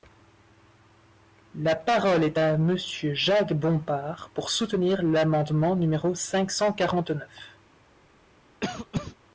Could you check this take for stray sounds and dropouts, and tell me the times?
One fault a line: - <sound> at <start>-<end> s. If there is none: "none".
- cough at 8.6-9.2 s